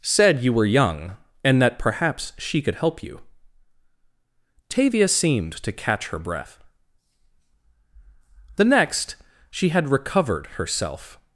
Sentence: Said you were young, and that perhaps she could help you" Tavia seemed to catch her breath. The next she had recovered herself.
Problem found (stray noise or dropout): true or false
false